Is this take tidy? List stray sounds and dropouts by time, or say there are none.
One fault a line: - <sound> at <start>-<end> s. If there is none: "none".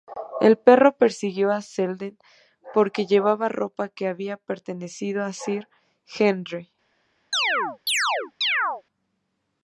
- chirp at 7.3-8.8 s